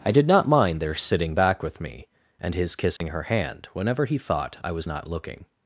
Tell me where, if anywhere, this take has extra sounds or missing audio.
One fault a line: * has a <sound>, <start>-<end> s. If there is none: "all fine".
* has a dropout, 3.0-3.0 s